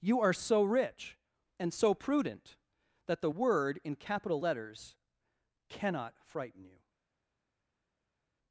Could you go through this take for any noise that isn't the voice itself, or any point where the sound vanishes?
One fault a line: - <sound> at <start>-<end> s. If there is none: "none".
none